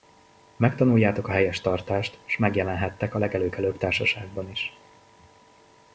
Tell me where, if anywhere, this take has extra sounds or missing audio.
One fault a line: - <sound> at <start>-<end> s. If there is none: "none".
none